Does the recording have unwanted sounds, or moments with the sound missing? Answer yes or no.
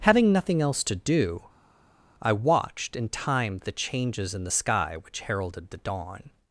no